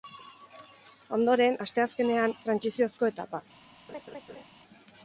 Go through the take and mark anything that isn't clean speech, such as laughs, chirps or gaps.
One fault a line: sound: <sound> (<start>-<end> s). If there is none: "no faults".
sound: laugh (3.9-4.4 s)